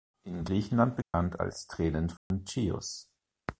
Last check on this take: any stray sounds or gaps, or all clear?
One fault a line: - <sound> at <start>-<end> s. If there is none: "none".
- dropout at 1.0-1.1 s
- dropout at 2.2-2.3 s